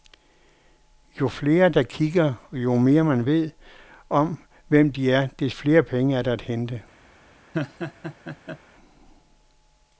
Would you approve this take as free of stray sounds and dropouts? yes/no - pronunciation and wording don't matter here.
no